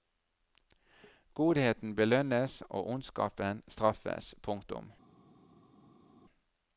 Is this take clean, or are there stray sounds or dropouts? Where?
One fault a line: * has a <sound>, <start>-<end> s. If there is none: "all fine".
all fine